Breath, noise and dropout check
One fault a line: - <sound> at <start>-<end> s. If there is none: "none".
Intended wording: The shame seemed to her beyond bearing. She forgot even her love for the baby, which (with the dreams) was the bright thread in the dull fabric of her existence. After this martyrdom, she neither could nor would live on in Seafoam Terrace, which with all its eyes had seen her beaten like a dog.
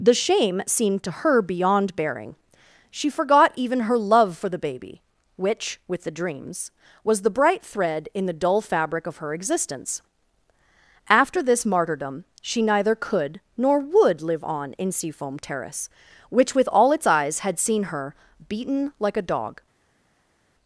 none